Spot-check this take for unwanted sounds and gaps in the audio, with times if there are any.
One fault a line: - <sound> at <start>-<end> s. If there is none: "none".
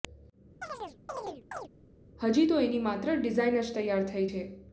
- chirp at 0.6-1.7 s